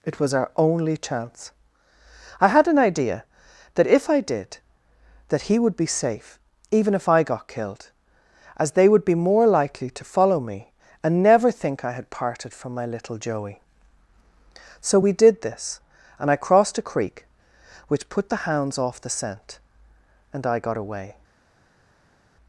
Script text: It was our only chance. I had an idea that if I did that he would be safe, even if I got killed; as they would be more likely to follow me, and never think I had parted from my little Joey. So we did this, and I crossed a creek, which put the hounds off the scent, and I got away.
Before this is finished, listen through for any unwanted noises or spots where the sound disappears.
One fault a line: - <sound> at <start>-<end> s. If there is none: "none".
none